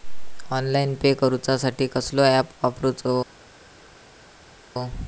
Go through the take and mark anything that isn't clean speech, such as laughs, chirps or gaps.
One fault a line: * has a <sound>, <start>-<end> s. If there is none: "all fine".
all fine